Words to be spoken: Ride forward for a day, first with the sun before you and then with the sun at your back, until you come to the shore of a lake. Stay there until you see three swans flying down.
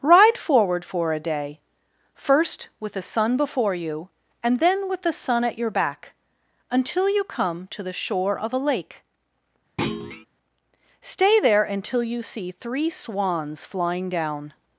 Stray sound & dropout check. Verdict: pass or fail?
fail